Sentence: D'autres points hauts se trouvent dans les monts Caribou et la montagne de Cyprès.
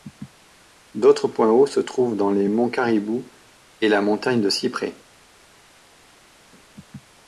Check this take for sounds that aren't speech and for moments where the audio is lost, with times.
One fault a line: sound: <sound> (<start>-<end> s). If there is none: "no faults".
no faults